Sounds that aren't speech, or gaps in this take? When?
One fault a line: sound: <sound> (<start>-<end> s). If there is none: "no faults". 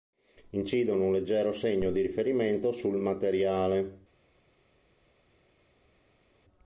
no faults